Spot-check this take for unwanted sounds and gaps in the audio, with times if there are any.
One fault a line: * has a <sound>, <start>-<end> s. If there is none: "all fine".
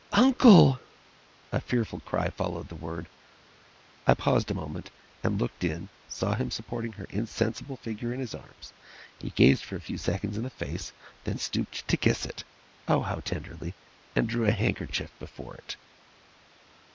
all fine